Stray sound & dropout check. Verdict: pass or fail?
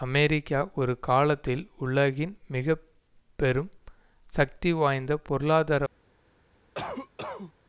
fail